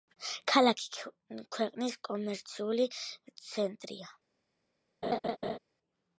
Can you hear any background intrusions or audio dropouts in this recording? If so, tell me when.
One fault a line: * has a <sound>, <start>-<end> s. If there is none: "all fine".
* has a laugh, 5.0-5.6 s